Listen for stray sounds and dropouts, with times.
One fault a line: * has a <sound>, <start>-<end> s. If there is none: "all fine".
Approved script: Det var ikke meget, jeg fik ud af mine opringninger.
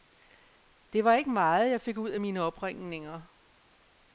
all fine